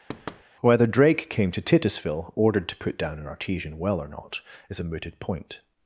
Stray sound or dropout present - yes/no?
yes